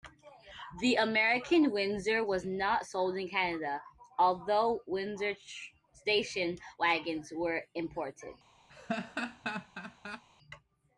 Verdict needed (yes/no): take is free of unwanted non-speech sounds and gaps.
no